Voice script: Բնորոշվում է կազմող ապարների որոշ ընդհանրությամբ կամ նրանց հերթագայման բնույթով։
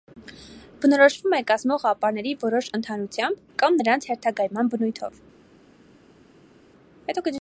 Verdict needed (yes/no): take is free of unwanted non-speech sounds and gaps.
yes